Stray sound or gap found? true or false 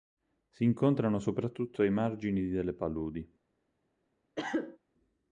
true